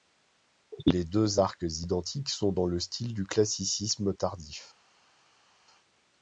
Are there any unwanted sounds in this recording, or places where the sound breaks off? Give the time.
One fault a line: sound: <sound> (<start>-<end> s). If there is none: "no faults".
no faults